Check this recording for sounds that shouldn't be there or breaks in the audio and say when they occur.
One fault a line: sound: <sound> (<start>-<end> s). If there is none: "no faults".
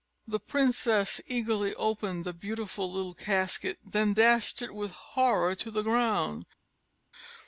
no faults